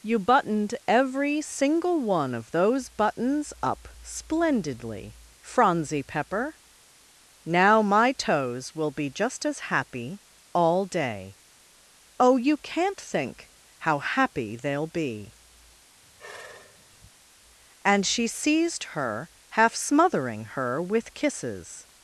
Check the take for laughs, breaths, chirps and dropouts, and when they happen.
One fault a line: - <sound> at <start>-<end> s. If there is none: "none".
- sigh at 16.0-17.1 s